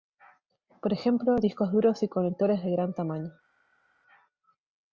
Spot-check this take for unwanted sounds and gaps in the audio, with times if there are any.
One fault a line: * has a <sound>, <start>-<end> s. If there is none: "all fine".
all fine